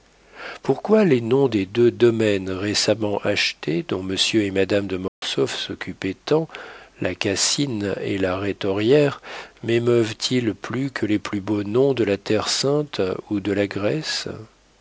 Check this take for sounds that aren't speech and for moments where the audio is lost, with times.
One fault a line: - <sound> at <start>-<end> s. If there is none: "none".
- dropout at 5.1-5.2 s